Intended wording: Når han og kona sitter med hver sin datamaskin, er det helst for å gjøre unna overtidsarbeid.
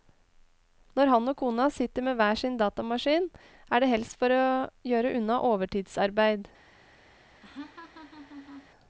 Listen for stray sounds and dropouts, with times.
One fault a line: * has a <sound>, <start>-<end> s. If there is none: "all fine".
* has a laugh, 7.4-8.7 s